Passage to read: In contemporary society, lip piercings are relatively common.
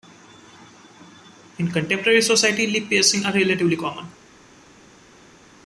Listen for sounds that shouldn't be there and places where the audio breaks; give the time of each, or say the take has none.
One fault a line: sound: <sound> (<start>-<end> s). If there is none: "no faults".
no faults